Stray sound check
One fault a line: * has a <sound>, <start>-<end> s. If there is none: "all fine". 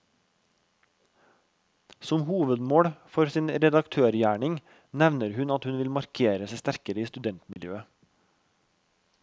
* has a dropout, 7.5-7.6 s